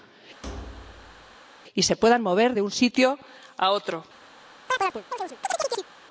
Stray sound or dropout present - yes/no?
yes